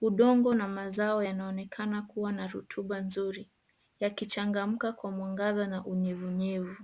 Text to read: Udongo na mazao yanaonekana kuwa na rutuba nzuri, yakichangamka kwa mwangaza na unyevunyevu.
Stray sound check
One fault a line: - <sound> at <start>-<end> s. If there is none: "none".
none